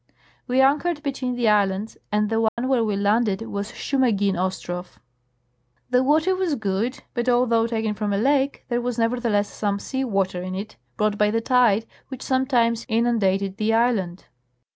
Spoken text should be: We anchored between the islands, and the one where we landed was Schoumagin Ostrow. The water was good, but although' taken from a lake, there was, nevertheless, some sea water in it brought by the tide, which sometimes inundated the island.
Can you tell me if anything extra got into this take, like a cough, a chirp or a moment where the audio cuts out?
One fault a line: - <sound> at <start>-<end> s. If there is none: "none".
- dropout at 2.5-2.6 s